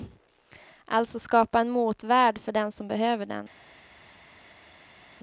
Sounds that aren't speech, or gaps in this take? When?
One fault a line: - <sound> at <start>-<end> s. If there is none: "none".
none